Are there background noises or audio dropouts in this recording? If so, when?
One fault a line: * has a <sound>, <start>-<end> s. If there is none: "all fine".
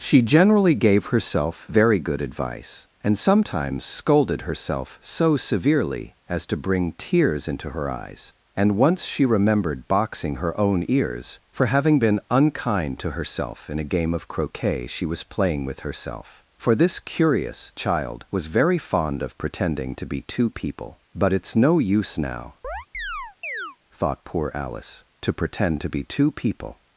* has a chirp, 22.6-23.8 s